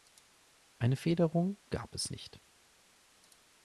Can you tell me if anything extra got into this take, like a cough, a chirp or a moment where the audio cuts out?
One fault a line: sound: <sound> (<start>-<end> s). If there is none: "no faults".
no faults